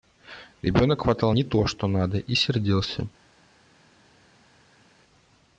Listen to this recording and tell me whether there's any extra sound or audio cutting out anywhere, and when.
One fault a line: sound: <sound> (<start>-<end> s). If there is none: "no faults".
no faults